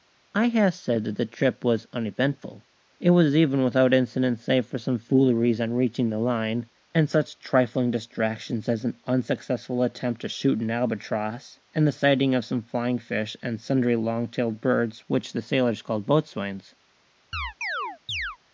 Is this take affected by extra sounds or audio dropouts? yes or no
yes